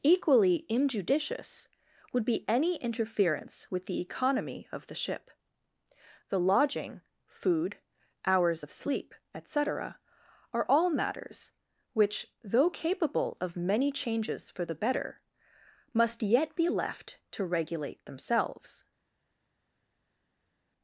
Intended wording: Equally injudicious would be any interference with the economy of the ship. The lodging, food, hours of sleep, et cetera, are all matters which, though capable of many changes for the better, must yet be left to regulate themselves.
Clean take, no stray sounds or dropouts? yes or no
yes